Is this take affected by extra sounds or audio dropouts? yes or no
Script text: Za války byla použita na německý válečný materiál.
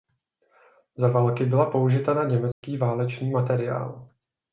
yes